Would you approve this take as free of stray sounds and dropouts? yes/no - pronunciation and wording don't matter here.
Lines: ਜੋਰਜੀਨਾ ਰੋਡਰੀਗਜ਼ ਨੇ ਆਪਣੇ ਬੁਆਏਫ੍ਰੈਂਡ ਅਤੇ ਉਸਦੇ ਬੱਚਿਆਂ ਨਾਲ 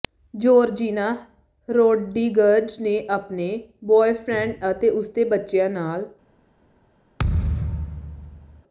no